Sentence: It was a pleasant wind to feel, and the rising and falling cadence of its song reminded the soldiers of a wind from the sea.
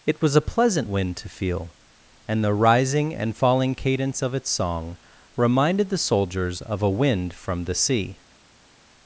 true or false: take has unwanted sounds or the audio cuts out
false